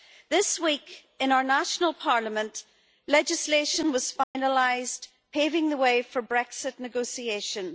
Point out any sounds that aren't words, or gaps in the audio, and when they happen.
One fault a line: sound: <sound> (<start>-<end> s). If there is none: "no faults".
sound: dropout (4.2-4.4 s)